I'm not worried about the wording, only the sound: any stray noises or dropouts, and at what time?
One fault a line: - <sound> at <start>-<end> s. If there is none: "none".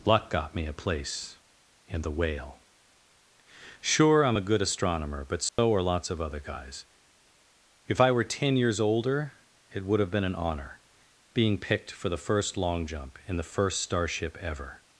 - dropout at 5.5-5.6 s